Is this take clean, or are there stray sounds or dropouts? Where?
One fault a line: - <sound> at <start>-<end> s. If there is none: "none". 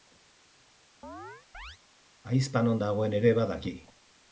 - chirp at 1.0-1.8 s